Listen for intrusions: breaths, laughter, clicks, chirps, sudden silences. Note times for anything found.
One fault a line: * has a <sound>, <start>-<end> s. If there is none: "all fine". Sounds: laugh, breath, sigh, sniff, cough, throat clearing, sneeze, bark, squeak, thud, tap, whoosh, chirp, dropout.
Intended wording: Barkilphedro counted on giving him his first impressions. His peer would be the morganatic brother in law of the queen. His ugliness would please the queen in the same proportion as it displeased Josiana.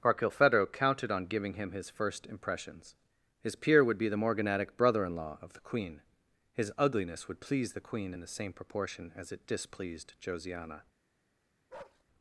* has a bark, 11.7-12.0 s